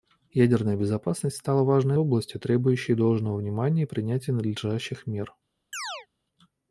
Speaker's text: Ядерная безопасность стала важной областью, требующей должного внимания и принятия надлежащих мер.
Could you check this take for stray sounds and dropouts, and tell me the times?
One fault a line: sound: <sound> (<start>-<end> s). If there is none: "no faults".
sound: chirp (5.7-6.1 s)